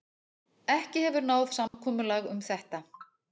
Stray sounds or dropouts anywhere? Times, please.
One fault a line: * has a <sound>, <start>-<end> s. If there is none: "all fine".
* has a dropout, 1.7-1.7 s